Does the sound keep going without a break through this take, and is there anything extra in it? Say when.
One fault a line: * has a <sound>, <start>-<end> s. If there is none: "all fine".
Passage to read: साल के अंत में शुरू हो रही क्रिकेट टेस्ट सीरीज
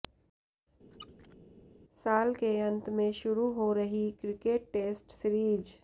* has a squeak, 0.9-1.4 s